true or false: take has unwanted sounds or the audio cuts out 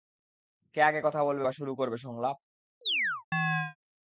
true